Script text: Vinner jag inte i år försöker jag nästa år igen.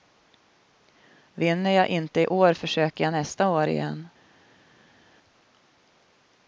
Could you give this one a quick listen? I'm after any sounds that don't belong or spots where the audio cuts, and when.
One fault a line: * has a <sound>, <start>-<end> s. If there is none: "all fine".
all fine